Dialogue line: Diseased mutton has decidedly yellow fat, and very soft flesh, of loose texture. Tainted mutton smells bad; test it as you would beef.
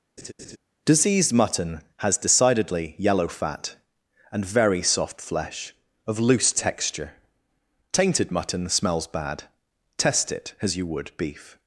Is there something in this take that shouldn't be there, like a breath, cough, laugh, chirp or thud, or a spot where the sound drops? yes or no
yes